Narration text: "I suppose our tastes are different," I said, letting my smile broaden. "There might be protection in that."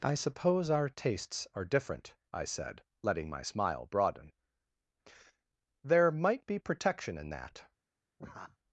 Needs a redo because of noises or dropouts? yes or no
yes